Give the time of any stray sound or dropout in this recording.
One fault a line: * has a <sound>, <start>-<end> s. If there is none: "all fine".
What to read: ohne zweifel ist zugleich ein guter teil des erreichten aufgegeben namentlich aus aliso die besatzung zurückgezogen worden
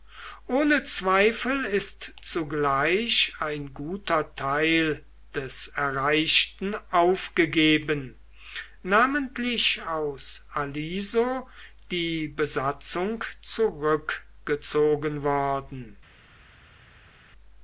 all fine